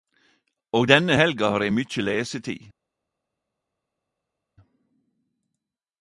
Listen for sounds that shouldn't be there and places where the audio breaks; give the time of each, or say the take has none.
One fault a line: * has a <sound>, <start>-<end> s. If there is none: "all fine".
all fine